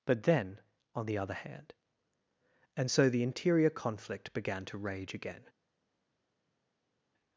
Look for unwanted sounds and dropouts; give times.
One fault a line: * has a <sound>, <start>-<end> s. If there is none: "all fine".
all fine